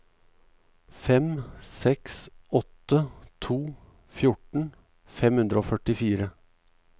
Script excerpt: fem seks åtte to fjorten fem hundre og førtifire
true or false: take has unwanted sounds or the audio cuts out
false